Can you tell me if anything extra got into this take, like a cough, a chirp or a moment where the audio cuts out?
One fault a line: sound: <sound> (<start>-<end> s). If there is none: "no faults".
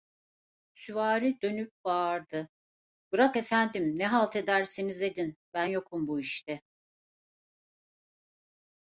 no faults